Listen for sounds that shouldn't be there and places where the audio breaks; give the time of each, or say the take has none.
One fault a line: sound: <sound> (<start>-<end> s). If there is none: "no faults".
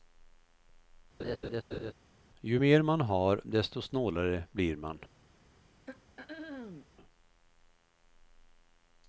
sound: laugh (1.2-1.9 s)
sound: throat clearing (5.9-6.9 s)